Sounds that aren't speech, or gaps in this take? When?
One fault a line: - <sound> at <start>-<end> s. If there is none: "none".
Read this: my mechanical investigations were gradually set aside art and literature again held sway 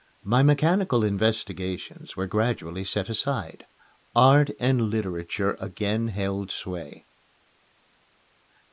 none